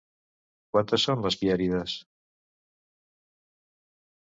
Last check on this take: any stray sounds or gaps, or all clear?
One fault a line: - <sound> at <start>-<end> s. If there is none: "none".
none